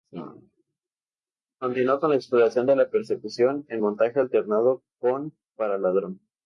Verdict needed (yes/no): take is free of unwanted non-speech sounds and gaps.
yes